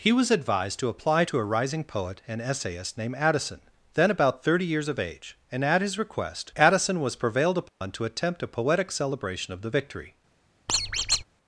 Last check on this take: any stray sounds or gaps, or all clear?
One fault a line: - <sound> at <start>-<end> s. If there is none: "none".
- dropout at 7.7-7.8 s
- squeak at 10.7-11.2 s